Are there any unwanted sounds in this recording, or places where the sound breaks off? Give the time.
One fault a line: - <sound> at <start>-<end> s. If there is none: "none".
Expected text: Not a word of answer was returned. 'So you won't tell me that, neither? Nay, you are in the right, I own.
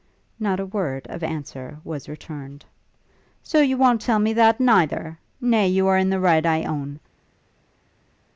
none